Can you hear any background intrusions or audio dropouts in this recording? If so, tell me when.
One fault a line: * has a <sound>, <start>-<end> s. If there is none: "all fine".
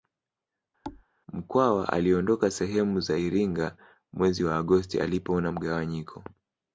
* has a thud, 0.8-1.0 s